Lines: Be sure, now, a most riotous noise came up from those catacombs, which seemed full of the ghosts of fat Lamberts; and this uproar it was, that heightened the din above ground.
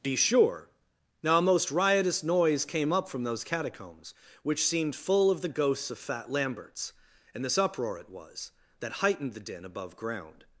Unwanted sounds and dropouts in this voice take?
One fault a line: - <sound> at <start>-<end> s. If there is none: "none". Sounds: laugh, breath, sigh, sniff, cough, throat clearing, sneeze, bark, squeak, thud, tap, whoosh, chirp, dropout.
none